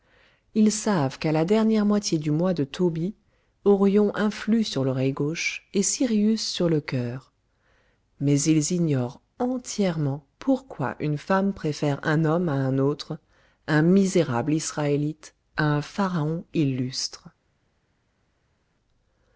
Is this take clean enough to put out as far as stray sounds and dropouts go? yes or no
yes